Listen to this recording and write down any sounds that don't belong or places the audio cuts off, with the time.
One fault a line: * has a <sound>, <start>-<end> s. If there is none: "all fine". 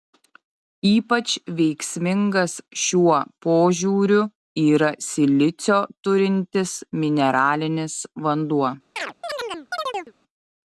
* has a chirp, 9.0-10.1 s